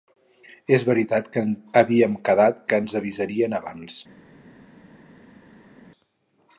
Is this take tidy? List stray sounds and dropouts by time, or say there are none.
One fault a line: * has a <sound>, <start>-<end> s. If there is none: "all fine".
all fine